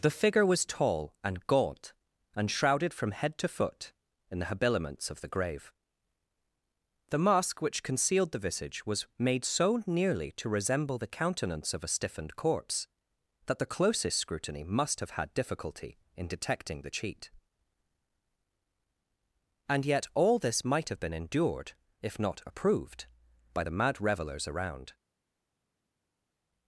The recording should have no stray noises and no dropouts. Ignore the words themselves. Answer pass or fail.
pass